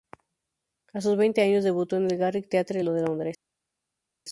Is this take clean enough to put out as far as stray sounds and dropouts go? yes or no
yes